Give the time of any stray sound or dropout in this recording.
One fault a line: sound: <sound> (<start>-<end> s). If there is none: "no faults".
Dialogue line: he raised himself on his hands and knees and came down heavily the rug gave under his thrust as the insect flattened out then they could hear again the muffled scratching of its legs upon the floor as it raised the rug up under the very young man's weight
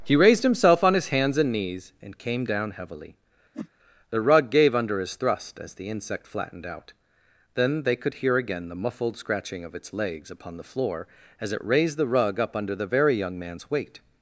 sound: whoosh (3.5-3.7 s)